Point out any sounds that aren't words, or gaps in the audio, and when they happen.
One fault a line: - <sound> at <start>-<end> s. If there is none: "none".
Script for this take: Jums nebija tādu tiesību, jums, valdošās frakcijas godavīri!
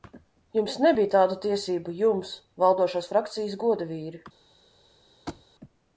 - thud at 5.3-5.5 s